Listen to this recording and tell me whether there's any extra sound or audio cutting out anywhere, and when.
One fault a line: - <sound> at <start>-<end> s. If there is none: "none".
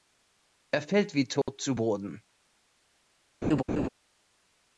- dropout at 1.4-1.5 s
- laugh at 3.4-3.9 s